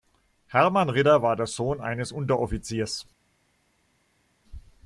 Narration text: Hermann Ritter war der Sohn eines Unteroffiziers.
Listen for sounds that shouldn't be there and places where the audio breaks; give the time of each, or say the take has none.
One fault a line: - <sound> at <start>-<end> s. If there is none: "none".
none